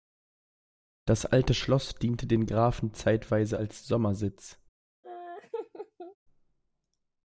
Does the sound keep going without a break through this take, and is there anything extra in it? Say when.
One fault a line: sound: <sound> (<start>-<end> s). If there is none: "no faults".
sound: laugh (5.0-6.2 s)